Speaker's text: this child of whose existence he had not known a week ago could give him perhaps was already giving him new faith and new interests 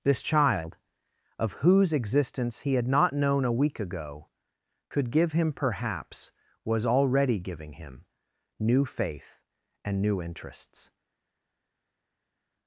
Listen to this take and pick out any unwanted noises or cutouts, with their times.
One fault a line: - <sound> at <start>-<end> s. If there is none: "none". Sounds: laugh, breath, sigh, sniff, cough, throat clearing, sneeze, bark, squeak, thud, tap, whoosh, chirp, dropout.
none